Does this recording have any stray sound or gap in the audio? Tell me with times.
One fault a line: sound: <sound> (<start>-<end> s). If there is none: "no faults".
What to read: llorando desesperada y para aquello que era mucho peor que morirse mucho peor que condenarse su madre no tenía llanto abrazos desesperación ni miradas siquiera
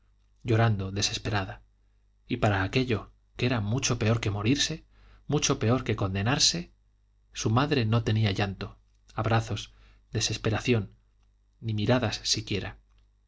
no faults